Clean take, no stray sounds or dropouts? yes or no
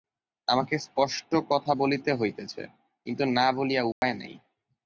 no